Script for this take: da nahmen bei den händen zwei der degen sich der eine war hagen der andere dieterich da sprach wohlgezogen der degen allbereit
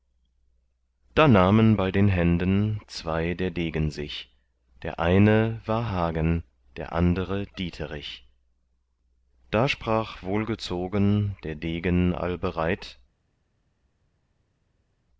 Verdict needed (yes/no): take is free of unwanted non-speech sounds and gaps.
yes